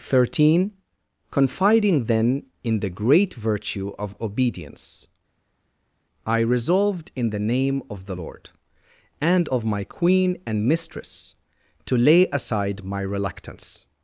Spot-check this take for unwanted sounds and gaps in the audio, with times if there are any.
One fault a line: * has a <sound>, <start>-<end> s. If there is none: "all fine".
all fine